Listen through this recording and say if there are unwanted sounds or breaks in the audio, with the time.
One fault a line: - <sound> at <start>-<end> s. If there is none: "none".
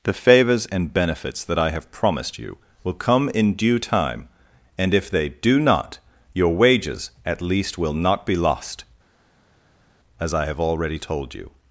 none